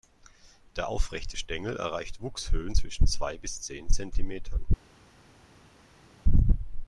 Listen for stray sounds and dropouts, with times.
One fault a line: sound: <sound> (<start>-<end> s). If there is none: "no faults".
no faults